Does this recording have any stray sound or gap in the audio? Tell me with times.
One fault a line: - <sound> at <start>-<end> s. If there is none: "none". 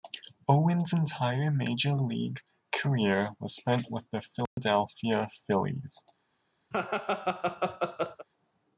- dropout at 4.5-4.6 s
- laugh at 6.7-8.3 s